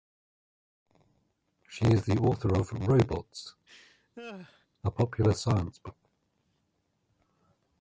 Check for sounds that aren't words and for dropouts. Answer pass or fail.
fail